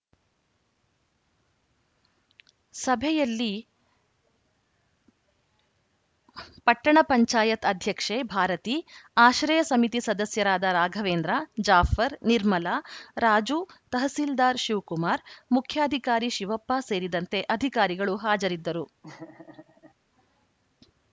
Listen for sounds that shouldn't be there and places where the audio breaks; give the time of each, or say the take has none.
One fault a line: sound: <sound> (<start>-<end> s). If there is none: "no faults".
sound: laugh (19.0-19.9 s)